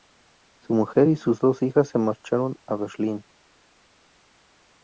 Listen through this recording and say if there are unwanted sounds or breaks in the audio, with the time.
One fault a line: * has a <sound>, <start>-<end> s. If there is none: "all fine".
all fine